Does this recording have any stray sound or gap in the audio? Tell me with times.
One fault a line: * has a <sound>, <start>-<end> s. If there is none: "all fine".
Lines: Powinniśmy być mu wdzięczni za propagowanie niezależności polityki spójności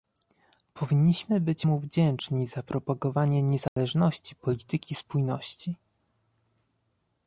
* has a dropout, 3.7-3.8 s